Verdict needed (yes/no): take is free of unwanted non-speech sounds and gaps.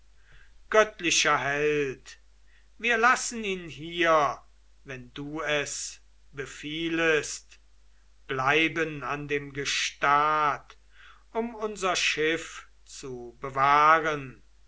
yes